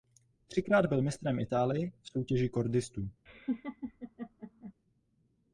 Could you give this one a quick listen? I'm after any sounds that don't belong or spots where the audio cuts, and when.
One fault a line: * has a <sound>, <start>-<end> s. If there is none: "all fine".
* has a laugh, 3.3-4.7 s